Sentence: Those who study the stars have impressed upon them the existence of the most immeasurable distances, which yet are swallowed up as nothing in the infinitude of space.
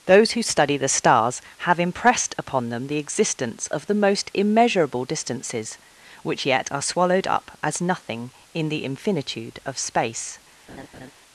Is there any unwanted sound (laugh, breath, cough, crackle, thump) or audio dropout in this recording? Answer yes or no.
yes